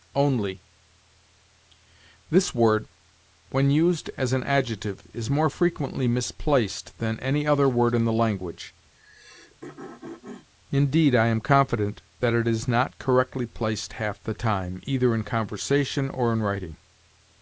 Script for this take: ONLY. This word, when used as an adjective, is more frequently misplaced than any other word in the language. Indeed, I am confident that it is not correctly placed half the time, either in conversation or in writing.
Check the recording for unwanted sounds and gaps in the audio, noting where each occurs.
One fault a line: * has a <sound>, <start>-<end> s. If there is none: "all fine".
* has a throat clearing, 8.9-10.5 s